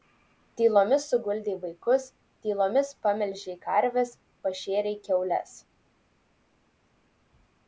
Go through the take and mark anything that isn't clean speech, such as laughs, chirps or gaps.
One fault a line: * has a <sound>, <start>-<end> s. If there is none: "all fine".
all fine